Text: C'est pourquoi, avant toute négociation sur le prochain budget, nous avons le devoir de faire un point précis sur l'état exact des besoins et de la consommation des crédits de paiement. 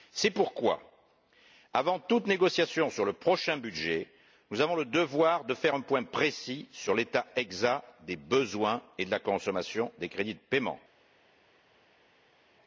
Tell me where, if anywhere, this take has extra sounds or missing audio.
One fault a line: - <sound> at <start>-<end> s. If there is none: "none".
none